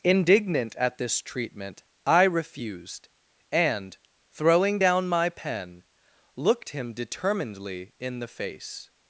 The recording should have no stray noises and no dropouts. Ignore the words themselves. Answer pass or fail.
pass